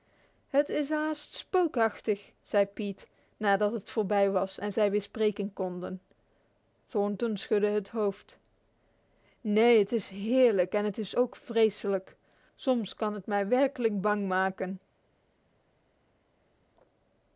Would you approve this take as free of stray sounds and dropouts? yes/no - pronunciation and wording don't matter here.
yes